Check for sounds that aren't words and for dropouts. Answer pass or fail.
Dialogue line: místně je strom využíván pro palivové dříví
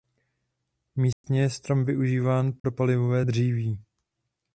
fail